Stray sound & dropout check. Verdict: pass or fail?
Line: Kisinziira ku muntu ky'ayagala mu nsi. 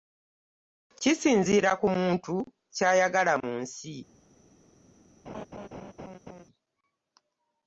fail